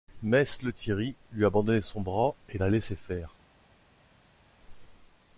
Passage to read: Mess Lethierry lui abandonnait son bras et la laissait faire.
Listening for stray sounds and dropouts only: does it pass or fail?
pass